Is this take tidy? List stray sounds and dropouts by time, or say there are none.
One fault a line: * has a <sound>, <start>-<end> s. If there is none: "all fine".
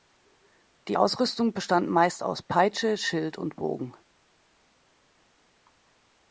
all fine